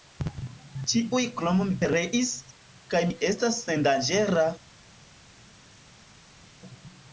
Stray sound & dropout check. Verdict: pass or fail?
pass